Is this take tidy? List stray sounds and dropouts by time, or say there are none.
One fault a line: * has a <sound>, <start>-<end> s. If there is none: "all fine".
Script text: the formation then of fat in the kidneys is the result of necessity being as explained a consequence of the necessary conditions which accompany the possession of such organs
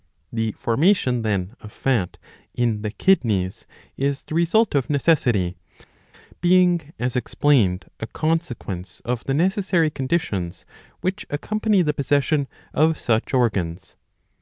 all fine